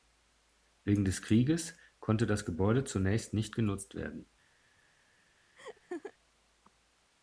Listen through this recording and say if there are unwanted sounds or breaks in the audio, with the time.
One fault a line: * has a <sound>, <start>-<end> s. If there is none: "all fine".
* has a laugh, 5.6-6.1 s